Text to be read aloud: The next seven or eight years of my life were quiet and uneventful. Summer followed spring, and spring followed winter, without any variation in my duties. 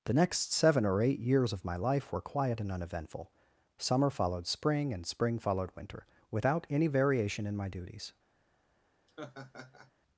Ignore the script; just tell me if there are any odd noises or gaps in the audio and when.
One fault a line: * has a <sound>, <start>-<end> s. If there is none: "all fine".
* has a laugh, 9.1-9.9 s